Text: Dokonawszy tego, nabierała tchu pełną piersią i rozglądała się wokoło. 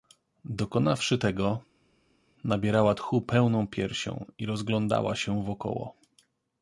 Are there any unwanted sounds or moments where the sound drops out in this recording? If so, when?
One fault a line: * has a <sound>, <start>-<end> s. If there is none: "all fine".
all fine